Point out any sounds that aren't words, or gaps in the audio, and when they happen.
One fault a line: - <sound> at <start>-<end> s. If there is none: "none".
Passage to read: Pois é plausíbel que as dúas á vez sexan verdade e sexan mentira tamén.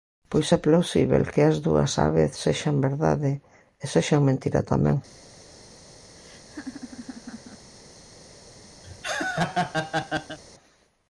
- laugh at 6.2-7.7 s
- laugh at 8.8-10.4 s